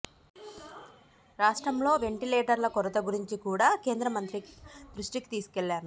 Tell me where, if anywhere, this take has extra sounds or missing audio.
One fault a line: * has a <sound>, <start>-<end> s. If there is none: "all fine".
all fine